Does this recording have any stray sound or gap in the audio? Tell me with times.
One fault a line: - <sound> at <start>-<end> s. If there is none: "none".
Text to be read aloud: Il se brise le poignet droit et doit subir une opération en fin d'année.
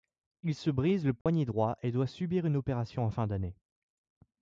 - dropout at 1.2-1.3 s